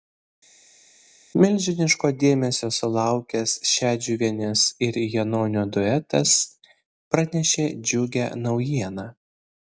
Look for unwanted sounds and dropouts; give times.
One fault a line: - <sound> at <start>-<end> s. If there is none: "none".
none